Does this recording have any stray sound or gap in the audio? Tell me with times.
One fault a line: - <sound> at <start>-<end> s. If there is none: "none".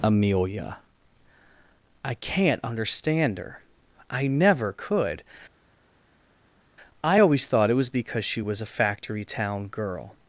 none